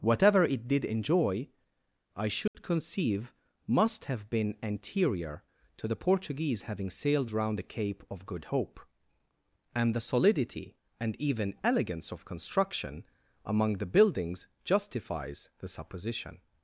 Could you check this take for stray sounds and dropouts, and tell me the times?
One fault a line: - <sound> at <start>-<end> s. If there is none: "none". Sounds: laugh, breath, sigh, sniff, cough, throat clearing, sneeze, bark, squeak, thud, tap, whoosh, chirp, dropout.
- dropout at 2.5-2.5 s